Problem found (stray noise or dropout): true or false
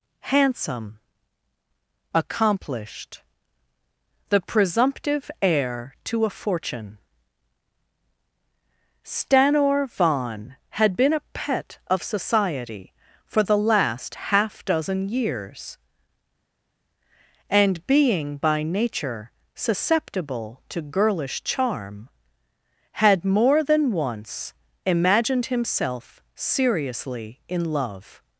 false